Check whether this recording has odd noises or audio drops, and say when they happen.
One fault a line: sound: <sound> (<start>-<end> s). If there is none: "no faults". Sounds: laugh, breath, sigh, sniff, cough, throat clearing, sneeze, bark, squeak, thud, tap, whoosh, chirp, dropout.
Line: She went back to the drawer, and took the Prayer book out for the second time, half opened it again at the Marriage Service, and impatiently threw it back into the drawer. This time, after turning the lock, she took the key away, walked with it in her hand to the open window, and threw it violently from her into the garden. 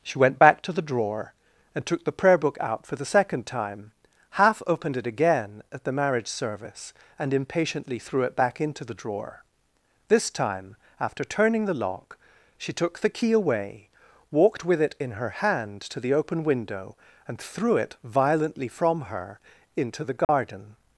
sound: dropout (20.2-20.3 s)